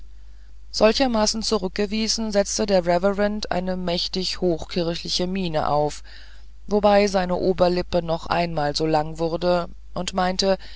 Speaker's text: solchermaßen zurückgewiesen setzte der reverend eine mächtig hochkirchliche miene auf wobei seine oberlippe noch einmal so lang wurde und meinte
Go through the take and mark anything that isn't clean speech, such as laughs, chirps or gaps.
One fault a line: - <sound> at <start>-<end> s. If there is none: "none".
none